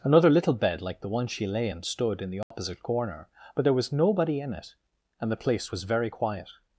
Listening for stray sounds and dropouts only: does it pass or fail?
fail